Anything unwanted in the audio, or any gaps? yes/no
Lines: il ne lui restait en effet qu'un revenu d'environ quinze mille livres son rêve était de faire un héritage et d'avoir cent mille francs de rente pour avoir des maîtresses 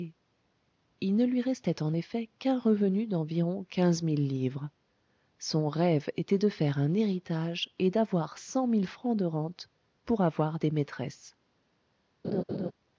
yes